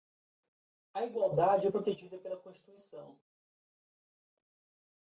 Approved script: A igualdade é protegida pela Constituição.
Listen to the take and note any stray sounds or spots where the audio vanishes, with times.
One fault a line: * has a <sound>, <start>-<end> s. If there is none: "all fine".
all fine